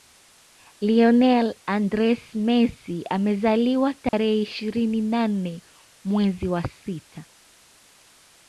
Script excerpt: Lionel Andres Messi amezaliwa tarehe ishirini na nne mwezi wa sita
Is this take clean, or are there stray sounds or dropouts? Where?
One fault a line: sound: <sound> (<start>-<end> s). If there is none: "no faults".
sound: dropout (4.1-4.1 s)